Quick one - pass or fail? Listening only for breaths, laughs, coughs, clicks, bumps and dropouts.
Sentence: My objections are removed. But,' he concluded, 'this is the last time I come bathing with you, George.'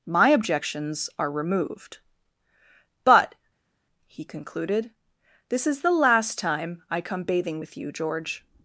pass